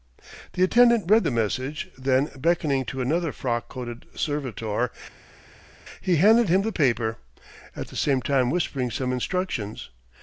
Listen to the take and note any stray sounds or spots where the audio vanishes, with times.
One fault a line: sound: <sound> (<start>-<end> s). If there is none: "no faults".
no faults